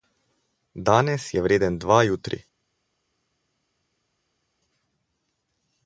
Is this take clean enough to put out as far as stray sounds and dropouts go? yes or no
yes